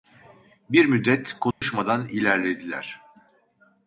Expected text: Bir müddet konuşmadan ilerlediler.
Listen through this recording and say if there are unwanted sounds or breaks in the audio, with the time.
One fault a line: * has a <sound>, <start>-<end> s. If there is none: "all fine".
* has a dropout, 1.5-1.6 s